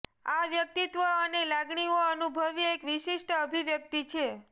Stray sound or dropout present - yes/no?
no